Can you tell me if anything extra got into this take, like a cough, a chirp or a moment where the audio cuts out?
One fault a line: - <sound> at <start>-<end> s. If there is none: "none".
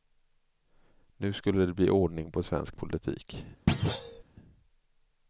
- thud at 3.7-4.2 s